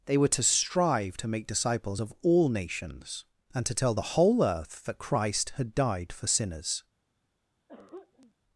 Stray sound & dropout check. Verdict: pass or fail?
fail